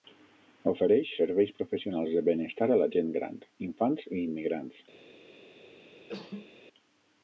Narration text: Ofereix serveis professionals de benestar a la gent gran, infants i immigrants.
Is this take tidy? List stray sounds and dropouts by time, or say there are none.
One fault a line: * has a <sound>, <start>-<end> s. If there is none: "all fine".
* has a cough, 5.9-6.5 s